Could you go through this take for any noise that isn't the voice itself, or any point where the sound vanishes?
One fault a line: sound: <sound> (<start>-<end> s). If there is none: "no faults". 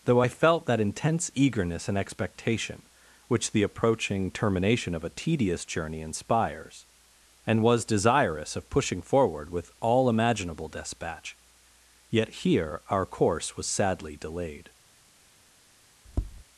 sound: tap (16.0-16.4 s)